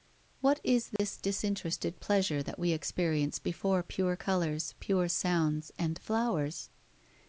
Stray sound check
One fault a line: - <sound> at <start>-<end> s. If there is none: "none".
- dropout at 1.0-1.0 s